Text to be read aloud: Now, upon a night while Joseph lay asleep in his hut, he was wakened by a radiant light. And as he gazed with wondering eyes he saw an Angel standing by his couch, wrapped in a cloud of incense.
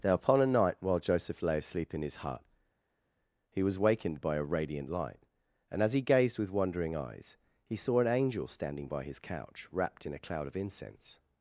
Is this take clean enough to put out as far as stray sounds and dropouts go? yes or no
yes